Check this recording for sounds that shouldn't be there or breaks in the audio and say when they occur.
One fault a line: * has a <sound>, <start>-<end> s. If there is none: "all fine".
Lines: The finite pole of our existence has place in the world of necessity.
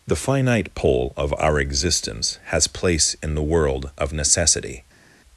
all fine